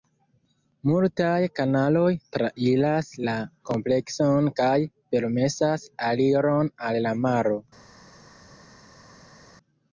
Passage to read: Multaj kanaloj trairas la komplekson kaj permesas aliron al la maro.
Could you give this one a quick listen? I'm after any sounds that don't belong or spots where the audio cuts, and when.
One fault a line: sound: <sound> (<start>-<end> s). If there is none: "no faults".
no faults